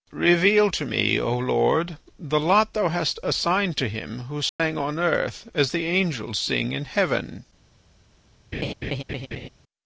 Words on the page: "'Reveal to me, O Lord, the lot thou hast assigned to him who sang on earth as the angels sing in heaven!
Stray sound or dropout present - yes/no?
yes